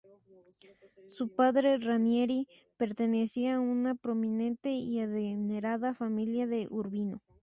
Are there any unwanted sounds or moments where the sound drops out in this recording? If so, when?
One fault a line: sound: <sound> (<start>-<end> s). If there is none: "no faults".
no faults